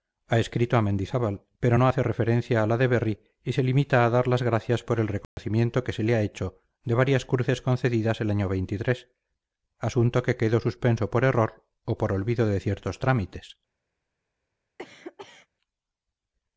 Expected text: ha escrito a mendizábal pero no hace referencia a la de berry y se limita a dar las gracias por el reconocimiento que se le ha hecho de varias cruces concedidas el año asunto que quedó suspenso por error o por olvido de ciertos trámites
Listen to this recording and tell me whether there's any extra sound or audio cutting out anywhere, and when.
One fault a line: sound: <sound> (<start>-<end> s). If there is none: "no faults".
sound: dropout (5.2-5.4 s)
sound: cough (14.8-15.5 s)